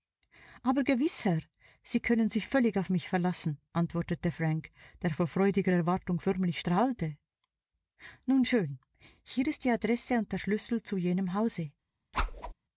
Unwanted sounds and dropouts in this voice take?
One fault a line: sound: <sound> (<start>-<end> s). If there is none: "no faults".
sound: whoosh (12.1-12.5 s)